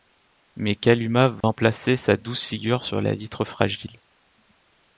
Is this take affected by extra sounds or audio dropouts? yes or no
yes